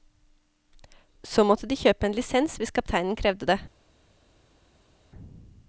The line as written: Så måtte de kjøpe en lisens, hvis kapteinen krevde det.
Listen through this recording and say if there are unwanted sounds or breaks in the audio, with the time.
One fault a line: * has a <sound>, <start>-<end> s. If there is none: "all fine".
all fine